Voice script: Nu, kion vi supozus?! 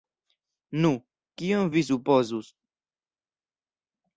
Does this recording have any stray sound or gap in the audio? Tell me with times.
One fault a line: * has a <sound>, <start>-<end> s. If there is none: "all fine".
all fine